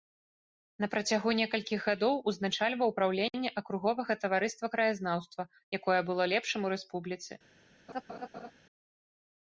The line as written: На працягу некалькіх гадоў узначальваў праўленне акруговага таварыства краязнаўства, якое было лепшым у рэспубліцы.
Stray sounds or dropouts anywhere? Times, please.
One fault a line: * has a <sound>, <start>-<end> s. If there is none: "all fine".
* has a laugh, 7.9-8.5 s